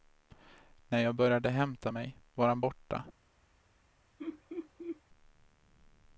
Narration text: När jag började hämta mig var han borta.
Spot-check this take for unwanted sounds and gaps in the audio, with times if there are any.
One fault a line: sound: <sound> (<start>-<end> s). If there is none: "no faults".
sound: laugh (4.2-5.0 s)